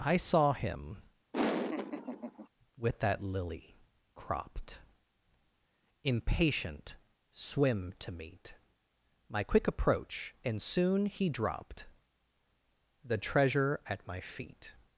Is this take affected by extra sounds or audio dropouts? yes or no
yes